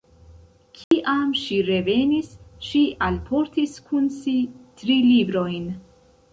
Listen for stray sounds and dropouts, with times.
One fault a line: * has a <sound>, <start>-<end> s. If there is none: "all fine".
* has a dropout, 0.8-0.9 s